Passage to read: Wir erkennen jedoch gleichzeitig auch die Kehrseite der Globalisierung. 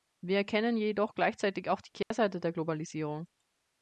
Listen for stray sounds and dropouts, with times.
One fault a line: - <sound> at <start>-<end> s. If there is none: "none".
- dropout at 2.0-2.1 s